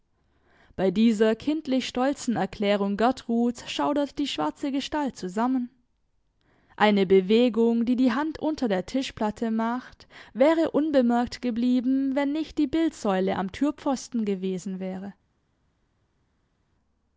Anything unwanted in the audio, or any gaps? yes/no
no